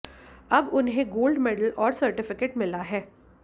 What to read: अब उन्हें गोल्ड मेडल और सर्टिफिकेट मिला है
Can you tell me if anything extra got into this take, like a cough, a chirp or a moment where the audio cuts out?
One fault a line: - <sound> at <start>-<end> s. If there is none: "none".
none